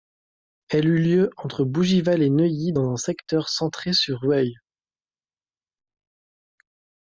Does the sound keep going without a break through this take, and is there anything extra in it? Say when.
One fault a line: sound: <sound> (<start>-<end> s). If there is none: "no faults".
no faults